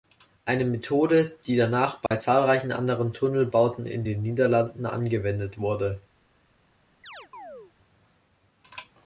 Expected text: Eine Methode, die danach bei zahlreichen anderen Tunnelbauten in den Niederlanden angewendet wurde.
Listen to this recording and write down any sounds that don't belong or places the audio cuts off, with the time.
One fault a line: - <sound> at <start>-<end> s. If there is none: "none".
- dropout at 2.1-2.1 s
- chirp at 7.0-7.7 s